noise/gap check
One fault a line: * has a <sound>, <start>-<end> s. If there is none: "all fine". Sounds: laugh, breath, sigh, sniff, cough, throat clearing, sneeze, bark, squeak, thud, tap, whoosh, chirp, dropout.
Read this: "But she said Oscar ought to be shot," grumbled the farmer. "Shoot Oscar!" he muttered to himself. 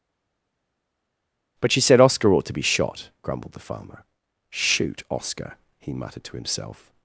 all fine